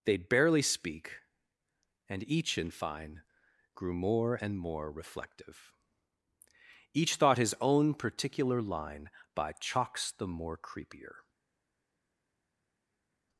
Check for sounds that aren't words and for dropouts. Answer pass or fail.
pass